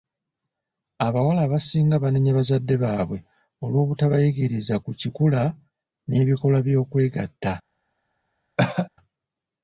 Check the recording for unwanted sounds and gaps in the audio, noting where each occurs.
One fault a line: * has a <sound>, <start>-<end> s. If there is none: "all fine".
* has a cough, 8.6-8.9 s